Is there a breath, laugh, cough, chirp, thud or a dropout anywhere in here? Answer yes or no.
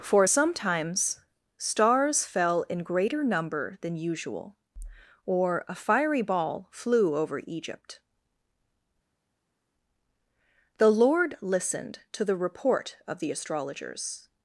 no